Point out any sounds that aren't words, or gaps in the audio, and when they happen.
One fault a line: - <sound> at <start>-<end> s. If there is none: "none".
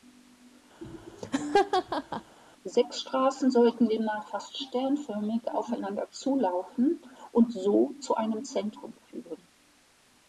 - laugh at 0.8-2.4 s